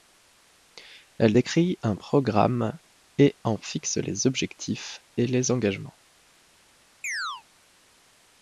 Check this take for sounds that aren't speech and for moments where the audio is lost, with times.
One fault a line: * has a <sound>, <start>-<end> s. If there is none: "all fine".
* has a chirp, 7.0-7.4 s